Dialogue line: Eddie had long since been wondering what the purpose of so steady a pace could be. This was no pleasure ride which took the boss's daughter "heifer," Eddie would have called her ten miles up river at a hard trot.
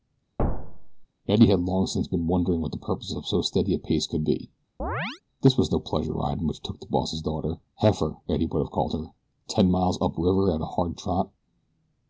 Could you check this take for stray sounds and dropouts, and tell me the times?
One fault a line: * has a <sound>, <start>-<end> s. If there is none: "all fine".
* has a thud, 0.4-1.1 s
* has a chirp, 4.8-5.2 s